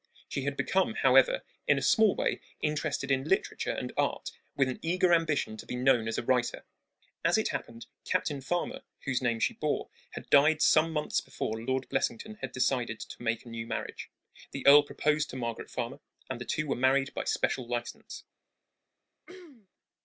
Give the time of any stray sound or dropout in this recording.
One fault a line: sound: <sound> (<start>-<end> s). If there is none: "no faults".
sound: throat clearing (19.3-19.7 s)